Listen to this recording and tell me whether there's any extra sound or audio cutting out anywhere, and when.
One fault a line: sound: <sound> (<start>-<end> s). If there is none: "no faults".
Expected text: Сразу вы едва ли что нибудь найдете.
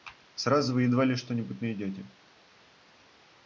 no faults